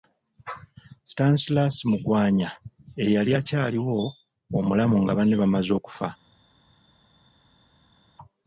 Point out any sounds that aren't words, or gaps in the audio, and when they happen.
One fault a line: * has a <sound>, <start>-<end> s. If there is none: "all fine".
all fine